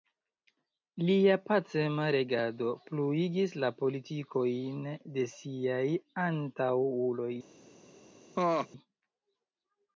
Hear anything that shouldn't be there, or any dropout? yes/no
yes